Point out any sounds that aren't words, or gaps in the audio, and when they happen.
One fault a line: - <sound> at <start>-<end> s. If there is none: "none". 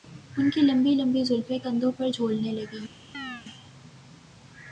- chirp at 3.1-3.5 s